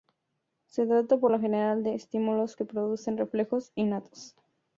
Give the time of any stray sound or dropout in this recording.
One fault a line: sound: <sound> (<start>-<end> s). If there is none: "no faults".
no faults